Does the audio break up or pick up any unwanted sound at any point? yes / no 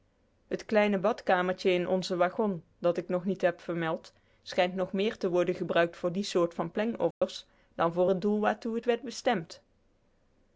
yes